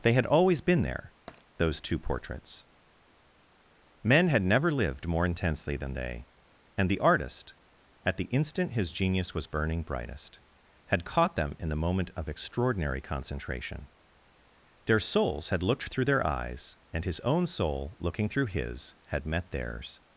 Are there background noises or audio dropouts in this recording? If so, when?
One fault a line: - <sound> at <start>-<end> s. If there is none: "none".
- tap at 1.3-1.4 s